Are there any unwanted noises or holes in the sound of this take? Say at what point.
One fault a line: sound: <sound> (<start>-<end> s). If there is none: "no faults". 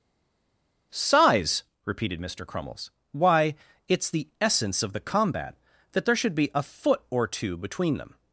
no faults